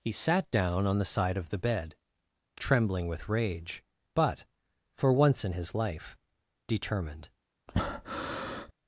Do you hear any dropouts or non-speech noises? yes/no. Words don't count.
yes